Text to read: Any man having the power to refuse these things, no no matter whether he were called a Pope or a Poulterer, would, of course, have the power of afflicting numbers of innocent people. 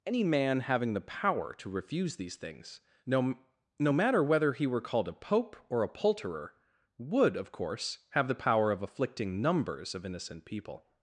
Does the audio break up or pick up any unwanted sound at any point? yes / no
no